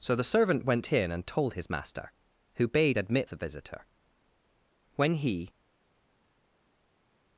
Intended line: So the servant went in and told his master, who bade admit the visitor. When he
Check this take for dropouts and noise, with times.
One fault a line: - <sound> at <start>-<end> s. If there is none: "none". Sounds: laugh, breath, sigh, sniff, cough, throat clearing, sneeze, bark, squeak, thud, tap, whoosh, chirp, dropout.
none